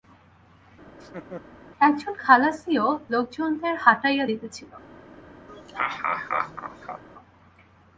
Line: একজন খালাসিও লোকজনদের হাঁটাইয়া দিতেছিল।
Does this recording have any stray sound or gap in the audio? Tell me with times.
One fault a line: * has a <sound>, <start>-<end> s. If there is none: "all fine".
* has a laugh, 0.9-1.4 s
* has a laugh, 5.5-7.0 s